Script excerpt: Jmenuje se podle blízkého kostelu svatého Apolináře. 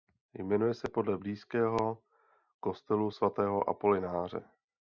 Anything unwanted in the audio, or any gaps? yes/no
no